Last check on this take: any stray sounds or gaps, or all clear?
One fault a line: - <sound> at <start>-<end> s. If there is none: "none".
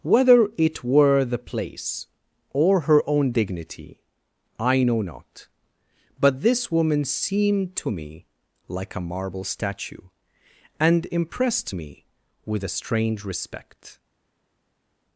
none